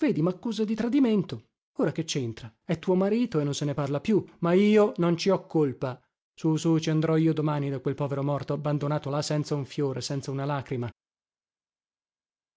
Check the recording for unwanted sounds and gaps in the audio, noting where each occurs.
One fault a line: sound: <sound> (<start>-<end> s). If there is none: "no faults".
no faults